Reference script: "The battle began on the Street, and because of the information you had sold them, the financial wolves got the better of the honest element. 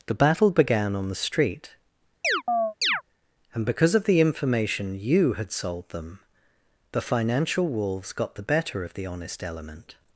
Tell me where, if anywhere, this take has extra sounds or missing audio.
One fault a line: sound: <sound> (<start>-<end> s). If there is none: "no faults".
sound: chirp (2.2-3.0 s)